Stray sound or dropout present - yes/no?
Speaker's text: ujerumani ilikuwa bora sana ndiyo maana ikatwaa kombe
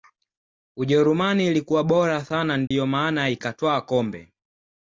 yes